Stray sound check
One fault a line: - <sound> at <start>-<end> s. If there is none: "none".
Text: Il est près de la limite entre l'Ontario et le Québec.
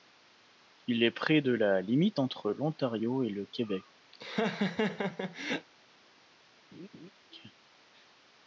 - laugh at 4.1-5.7 s
- laugh at 6.7-7.1 s